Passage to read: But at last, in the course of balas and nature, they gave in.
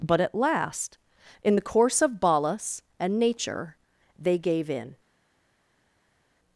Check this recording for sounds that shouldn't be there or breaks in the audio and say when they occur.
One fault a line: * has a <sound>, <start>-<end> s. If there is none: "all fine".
all fine